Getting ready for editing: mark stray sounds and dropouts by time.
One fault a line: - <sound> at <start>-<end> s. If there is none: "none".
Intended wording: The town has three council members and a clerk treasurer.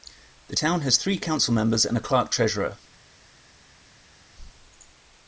none